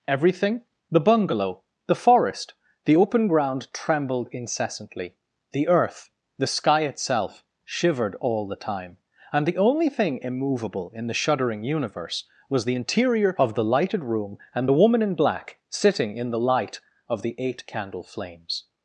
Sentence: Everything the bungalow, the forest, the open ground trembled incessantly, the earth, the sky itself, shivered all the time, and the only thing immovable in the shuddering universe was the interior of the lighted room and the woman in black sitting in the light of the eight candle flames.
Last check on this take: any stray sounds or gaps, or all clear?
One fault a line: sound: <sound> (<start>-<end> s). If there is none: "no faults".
no faults